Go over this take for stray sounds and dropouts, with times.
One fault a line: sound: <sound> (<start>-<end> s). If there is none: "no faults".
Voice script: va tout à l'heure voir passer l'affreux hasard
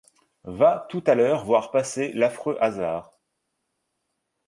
no faults